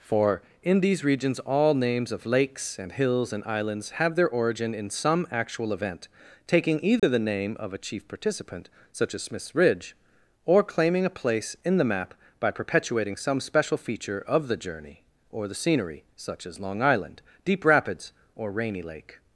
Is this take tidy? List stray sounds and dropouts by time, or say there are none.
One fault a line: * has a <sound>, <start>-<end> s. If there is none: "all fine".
* has a dropout, 7.0-7.0 s